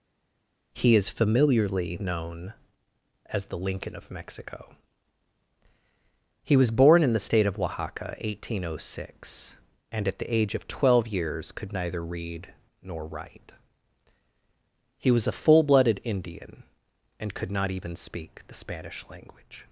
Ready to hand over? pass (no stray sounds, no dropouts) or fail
pass